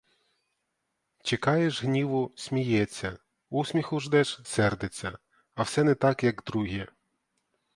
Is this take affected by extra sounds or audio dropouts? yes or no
no